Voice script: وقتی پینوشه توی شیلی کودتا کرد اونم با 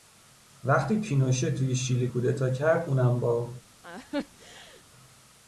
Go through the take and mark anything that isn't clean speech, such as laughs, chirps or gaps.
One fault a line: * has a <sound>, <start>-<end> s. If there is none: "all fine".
* has a laugh, 3.8-4.8 s